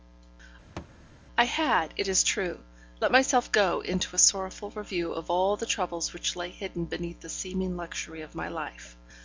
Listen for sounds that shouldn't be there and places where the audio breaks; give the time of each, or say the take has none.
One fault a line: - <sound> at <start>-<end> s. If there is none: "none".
- thud at 0.8-1.0 s